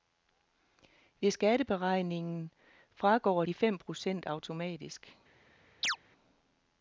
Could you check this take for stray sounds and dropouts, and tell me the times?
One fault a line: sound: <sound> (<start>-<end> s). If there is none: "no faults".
sound: chirp (5.8-6.0 s)